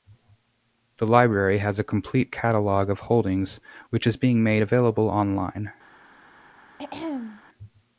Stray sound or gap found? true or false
true